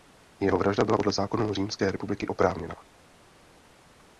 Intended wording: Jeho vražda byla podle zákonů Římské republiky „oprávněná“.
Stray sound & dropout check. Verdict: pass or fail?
pass